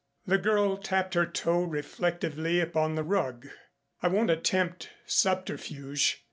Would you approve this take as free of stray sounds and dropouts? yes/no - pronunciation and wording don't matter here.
yes